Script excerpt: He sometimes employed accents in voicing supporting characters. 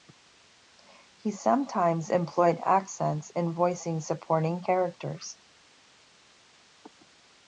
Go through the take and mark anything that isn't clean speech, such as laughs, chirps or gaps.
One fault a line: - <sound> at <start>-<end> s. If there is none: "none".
none